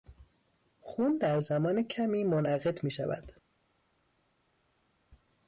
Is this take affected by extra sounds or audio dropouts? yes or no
no